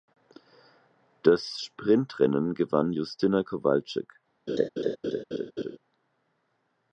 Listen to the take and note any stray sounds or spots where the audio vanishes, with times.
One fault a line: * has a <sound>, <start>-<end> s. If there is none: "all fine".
* has a laugh, 4.5-5.8 s